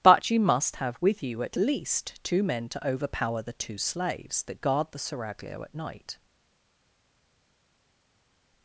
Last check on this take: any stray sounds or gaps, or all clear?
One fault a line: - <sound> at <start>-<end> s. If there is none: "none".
none